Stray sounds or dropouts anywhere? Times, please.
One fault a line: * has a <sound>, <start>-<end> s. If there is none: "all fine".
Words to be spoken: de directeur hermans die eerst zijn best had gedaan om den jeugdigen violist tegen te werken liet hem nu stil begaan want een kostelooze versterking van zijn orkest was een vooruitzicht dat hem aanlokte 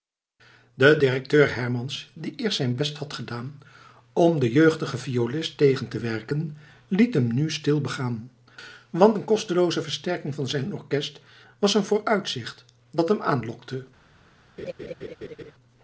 * has a laugh, 14.6-15.5 s